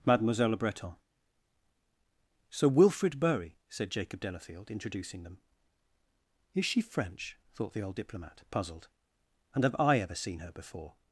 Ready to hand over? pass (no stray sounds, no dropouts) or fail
pass